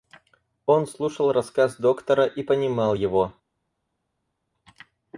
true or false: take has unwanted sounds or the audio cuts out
false